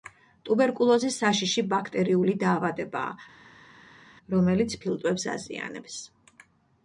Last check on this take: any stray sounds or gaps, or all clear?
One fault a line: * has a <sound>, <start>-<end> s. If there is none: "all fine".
all fine